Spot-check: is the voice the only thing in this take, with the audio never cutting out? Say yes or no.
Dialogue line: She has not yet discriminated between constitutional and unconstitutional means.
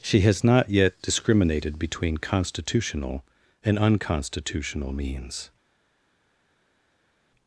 yes